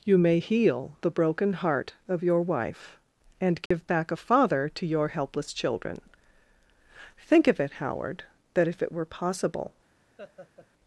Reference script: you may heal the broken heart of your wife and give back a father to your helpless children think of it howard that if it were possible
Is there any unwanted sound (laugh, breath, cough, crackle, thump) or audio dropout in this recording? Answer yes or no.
yes